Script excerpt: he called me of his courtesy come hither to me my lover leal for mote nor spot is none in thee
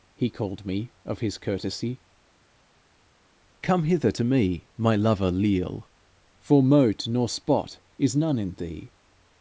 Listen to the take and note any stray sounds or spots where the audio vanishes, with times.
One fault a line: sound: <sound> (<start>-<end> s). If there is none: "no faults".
no faults